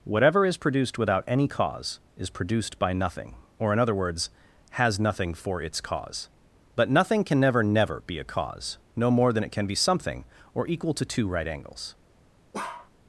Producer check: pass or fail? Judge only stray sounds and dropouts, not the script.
fail